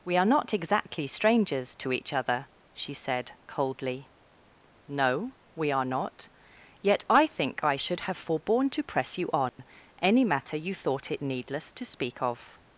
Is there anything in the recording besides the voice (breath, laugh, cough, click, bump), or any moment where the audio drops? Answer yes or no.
yes